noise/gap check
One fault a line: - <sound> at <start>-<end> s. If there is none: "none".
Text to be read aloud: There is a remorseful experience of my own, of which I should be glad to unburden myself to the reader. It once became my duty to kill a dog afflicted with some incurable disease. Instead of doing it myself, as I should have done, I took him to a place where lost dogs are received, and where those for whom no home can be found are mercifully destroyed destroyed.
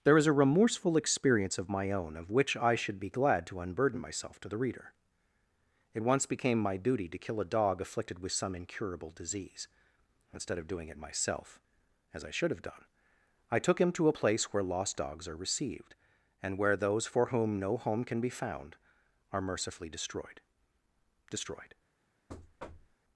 - thud at 22.3-23.0 s